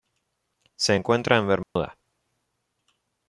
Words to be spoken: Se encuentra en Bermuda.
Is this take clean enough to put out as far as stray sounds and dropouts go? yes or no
no